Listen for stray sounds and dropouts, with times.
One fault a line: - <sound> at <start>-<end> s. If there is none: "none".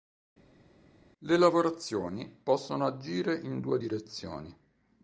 none